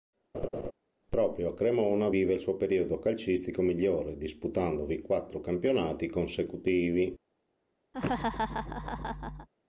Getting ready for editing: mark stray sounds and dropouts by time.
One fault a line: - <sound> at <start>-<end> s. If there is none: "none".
- laugh at 0.3-0.7 s
- laugh at 7.9-9.5 s